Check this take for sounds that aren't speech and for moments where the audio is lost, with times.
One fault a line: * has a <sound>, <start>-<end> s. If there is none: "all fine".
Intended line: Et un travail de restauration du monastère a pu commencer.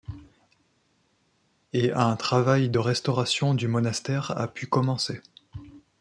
all fine